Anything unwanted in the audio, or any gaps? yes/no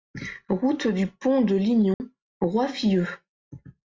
yes